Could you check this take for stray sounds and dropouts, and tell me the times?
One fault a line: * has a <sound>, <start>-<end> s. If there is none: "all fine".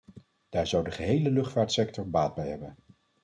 all fine